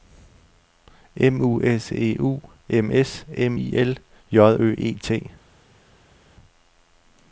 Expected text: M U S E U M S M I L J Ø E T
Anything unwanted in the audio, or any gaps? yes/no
no